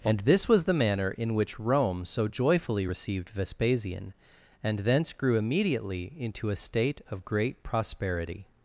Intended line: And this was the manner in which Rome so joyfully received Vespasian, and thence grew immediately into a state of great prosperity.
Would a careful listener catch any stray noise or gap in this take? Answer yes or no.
no